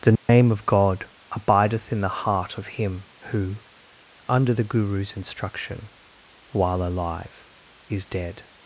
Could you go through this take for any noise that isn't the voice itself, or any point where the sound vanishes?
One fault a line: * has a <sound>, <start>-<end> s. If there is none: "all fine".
* has a dropout, 0.2-0.3 s